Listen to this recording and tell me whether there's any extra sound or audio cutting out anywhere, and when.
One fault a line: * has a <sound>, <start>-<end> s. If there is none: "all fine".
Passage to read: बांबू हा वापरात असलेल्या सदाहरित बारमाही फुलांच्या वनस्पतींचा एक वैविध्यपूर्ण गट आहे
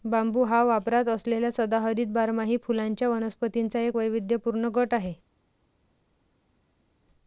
all fine